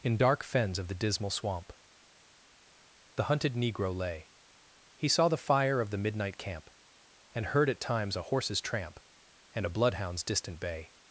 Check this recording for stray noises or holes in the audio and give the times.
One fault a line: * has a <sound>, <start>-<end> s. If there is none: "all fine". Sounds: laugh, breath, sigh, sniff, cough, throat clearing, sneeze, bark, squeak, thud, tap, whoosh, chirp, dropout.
all fine